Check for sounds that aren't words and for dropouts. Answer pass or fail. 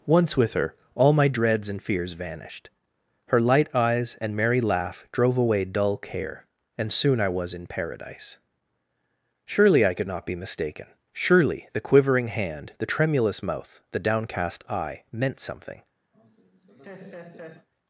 fail